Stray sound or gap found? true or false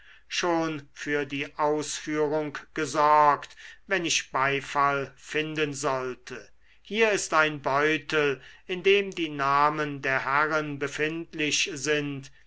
false